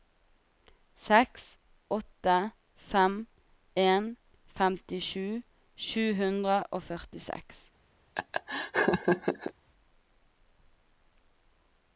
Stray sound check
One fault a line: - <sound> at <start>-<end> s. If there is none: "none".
- laugh at 8.2-9.5 s